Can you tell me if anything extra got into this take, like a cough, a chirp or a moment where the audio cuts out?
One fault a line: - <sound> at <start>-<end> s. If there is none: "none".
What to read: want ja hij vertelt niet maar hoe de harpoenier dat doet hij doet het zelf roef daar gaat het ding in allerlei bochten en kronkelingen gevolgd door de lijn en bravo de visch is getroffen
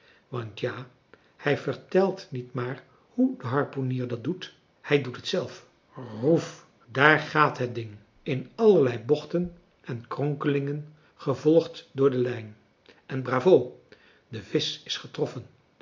none